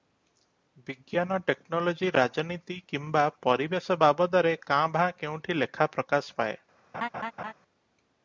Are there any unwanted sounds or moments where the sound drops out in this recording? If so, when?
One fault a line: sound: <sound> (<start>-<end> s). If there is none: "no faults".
sound: laugh (6.9-7.5 s)